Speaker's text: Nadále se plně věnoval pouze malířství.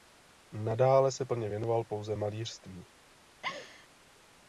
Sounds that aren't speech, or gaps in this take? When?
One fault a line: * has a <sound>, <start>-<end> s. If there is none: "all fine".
* has a laugh, 3.4-3.9 s